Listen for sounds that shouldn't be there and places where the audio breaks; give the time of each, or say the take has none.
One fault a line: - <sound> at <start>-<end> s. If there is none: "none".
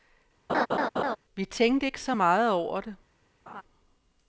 - laugh at 0.5-1.2 s
- laugh at 3.5-3.6 s